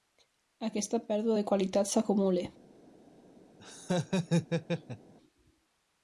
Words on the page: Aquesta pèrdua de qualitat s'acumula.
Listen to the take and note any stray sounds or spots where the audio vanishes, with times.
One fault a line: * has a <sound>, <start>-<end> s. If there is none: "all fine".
* has a laugh, 3.6-5.1 s